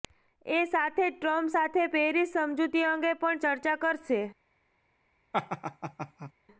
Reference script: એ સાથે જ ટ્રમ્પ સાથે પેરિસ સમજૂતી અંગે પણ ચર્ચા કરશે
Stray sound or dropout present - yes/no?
yes